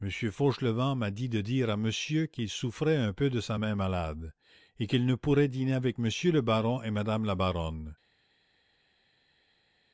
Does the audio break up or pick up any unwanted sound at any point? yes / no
no